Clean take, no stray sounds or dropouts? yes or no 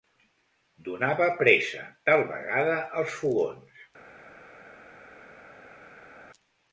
yes